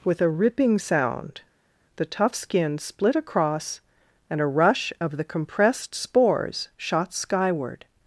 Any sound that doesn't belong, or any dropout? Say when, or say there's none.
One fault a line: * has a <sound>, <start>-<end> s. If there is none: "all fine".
all fine